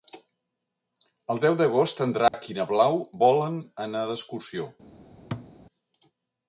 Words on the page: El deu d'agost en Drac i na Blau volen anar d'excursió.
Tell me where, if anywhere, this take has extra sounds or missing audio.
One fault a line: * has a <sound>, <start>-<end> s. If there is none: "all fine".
* has a dropout, 2.3-2.3 s
* has a thud, 5.3-5.5 s